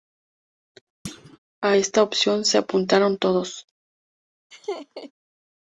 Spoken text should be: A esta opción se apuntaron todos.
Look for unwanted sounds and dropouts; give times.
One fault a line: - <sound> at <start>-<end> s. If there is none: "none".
- thud at 1.0-1.4 s
- laugh at 4.5-5.1 s